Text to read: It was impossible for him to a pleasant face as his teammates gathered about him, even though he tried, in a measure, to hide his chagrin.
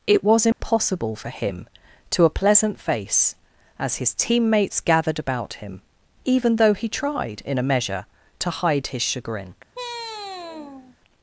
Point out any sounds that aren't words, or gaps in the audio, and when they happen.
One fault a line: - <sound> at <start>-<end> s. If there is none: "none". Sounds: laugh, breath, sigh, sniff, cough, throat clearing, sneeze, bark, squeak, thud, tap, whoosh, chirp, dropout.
- dropout at 0.5-0.6 s
- sigh at 9.7-11.0 s